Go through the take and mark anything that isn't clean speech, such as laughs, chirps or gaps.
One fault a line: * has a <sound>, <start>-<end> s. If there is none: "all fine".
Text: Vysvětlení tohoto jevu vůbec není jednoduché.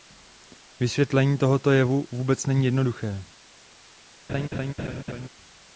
* has a laugh, 4.3-5.3 s